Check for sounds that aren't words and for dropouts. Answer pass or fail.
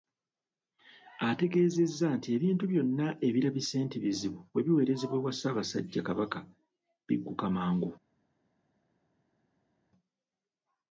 pass